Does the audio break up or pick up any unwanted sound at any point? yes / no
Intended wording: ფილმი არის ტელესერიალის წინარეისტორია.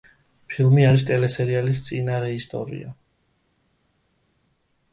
no